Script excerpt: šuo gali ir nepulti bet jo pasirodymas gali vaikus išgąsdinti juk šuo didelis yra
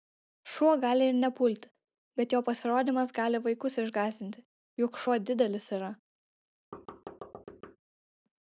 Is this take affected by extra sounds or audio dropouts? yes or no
yes